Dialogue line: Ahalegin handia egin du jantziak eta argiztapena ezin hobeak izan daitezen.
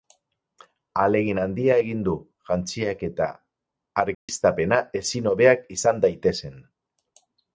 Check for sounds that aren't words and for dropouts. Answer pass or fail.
fail